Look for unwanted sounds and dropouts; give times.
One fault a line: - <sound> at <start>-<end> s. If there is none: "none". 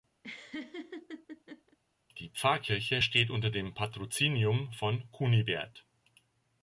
- laugh at 0.2-1.8 s